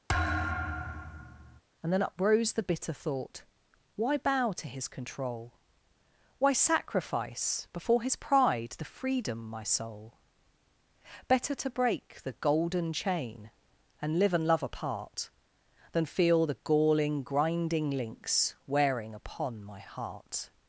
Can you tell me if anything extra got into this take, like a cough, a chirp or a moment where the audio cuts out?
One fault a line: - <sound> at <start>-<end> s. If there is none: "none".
- thud at 0.1-1.6 s